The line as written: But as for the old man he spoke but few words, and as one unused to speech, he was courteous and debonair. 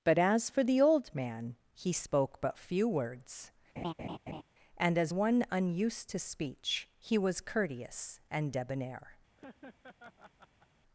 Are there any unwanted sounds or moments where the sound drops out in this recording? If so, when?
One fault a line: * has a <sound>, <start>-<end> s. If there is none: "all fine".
* has a laugh, 3.8-4.4 s
* has a laugh, 9.4-10.7 s